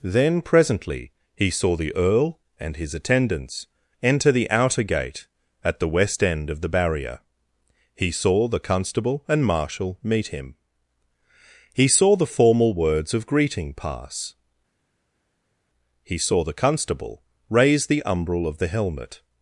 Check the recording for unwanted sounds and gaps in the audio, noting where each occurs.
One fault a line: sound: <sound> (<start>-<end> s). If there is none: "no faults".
no faults